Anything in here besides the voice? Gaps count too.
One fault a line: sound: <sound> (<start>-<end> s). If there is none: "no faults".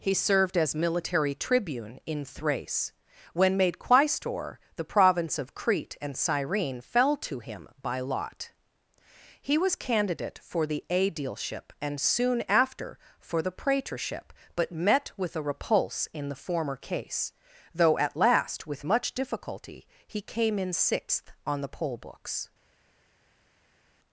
no faults